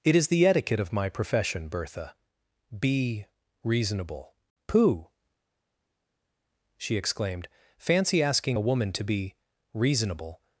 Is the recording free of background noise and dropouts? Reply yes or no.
yes